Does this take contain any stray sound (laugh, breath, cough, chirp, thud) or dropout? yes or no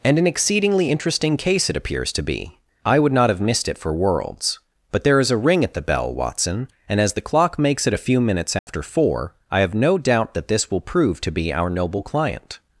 yes